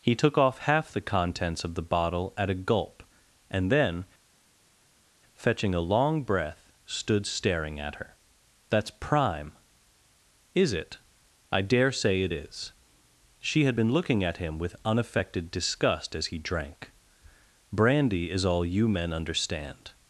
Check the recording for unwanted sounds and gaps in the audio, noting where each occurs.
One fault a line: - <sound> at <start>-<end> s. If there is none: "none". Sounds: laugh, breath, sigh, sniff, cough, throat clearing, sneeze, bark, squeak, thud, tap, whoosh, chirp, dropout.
none